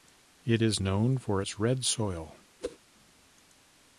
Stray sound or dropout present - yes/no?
yes